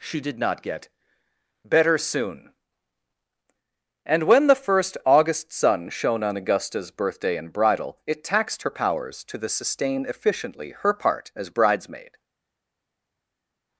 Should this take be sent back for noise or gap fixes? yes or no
no